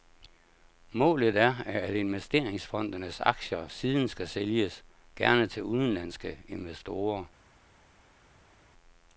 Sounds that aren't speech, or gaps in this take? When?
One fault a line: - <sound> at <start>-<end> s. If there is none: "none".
none